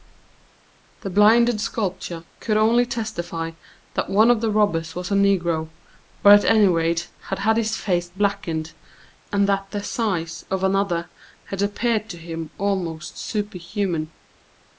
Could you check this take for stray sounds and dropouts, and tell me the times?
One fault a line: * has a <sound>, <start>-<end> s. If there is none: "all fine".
all fine